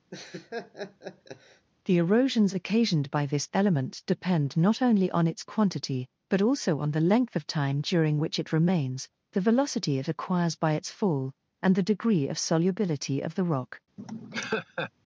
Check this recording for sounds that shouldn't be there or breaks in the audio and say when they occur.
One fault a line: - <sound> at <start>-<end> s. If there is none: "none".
- laugh at 0.1-1.7 s
- laugh at 14.0-14.9 s